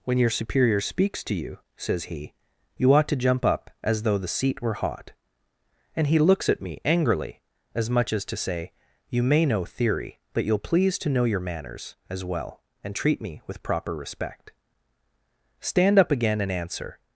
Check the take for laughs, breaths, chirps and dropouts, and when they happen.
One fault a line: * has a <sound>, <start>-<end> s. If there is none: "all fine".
all fine